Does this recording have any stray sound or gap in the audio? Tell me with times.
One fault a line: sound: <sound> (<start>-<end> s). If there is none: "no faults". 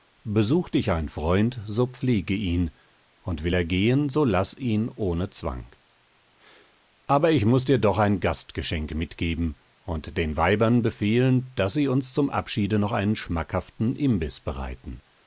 no faults